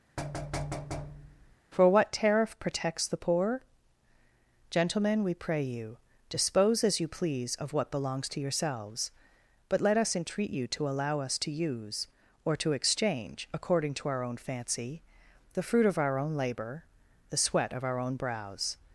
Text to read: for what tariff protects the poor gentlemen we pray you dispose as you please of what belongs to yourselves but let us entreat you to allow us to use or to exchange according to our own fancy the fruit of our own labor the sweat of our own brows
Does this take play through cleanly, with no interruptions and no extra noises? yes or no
no